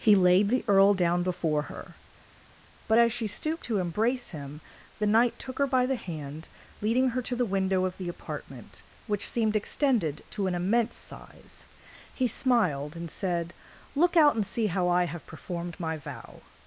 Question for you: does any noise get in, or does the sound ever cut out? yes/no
no